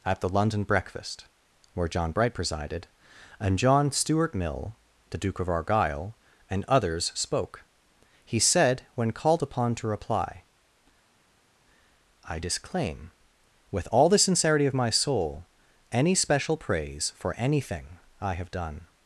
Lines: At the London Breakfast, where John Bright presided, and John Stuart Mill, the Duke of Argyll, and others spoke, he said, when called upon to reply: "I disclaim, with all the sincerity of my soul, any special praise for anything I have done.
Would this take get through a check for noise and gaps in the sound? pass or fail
pass